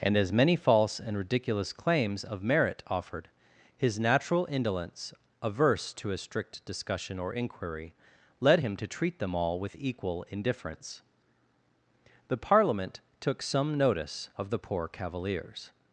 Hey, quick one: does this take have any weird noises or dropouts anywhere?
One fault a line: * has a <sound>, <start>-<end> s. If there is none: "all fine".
all fine